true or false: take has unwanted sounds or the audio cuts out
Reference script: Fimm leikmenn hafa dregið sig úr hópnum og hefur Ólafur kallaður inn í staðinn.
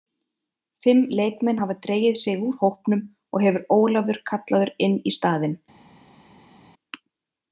false